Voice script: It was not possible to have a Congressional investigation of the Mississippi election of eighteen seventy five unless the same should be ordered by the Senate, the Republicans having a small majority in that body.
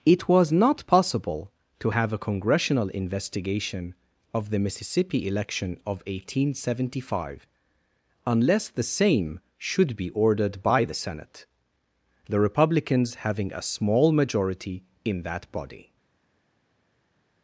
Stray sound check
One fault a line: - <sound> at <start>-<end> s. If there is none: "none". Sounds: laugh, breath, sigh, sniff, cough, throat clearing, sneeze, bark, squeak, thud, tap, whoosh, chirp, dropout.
none